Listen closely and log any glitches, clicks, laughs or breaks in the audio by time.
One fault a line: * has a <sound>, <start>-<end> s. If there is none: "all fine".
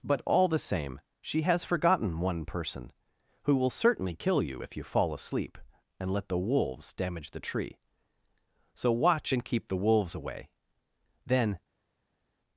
all fine